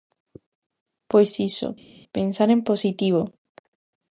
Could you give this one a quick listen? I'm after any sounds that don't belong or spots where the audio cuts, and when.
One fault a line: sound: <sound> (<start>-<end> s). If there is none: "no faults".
no faults